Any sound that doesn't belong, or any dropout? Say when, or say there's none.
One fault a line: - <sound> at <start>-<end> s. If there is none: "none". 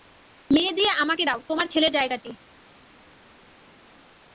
none